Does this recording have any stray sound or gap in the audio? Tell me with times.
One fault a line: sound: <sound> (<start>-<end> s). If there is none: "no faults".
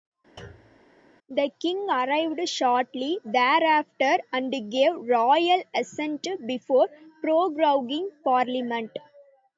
sound: thud (0.4-0.8 s)